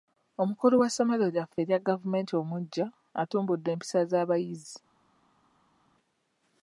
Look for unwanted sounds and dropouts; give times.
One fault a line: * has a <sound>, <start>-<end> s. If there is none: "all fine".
all fine